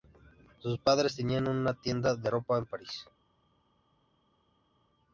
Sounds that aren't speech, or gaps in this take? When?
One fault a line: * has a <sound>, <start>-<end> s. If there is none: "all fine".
all fine